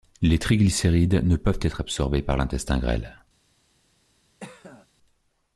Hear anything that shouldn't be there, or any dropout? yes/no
yes